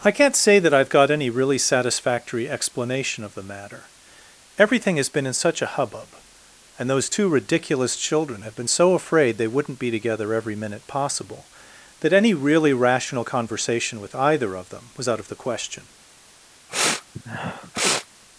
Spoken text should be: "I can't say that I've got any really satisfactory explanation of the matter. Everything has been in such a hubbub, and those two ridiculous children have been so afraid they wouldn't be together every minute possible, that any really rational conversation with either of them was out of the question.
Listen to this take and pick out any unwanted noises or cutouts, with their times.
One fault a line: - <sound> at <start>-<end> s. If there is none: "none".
- sniff at 16.7-18.1 s